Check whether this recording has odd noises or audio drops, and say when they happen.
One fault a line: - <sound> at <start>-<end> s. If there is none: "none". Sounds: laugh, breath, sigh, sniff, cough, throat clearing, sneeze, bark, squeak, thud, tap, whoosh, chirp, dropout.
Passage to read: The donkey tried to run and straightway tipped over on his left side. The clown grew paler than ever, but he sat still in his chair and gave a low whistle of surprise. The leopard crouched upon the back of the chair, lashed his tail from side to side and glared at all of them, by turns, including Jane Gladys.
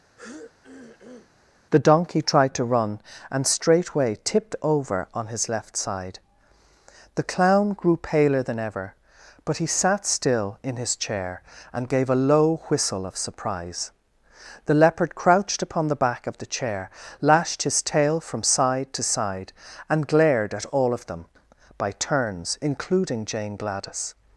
- throat clearing at 0.2-1.3 s